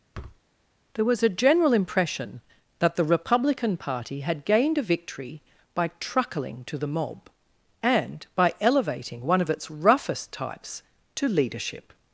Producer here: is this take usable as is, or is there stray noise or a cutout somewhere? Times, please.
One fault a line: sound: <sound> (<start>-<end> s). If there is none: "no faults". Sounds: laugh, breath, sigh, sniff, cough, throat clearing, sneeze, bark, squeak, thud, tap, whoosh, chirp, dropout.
sound: thud (0.1-0.4 s)